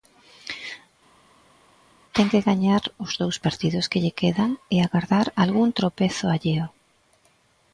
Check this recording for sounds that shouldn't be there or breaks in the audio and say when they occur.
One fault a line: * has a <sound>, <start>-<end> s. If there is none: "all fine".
all fine